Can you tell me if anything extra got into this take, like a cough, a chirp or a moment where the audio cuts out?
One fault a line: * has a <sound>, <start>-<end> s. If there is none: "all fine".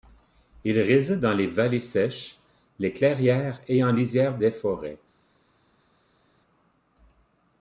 all fine